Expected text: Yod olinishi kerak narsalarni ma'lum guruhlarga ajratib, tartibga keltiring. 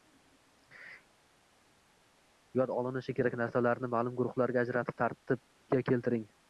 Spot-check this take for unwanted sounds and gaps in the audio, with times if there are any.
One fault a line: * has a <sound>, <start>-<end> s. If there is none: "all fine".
all fine